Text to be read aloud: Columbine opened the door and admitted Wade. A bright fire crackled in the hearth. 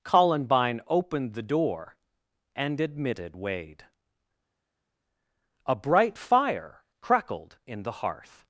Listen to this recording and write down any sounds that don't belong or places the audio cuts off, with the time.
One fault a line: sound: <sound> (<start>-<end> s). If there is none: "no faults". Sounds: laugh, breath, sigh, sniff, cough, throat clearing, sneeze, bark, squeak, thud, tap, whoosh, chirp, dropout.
no faults